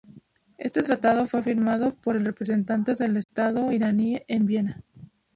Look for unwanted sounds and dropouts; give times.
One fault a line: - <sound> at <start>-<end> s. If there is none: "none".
- dropout at 3.2-3.3 s